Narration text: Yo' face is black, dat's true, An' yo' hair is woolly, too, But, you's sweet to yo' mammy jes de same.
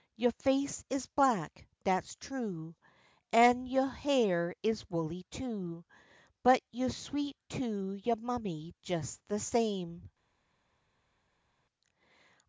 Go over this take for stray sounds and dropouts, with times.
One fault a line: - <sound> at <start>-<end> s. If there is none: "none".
none